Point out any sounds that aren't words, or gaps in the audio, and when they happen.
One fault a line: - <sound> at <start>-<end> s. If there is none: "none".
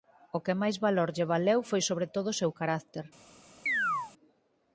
- chirp at 3.7-4.1 s